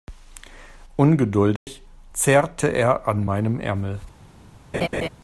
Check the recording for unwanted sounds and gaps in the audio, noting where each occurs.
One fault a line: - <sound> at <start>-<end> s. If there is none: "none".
- dropout at 1.6-1.7 s
- laugh at 4.7-5.1 s